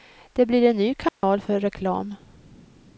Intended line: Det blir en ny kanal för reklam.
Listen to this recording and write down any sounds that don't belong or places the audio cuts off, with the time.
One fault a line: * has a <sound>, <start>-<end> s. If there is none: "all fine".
* has a dropout, 1.1-1.2 s